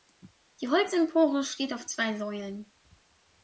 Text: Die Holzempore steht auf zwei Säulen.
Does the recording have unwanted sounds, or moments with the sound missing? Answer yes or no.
no